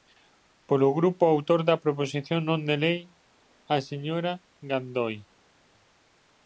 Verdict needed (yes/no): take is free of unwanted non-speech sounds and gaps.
yes